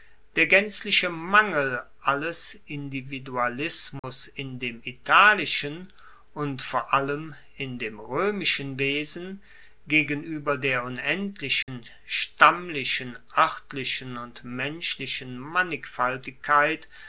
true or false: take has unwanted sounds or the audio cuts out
true